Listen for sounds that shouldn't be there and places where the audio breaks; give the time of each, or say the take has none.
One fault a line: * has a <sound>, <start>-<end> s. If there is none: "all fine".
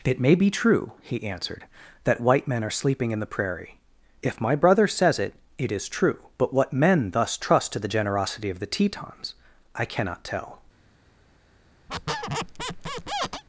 * has a squeak, 11.9-13.4 s